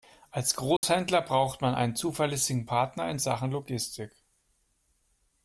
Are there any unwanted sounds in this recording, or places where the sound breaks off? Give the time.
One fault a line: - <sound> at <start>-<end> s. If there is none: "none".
- dropout at 0.8-0.8 s